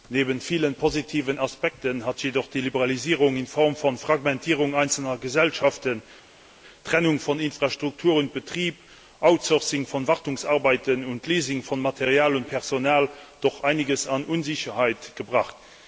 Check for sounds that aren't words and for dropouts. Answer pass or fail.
pass